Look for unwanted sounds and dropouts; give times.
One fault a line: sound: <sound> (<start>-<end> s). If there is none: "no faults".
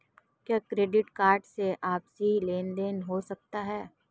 no faults